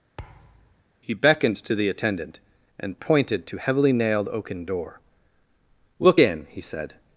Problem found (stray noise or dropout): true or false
true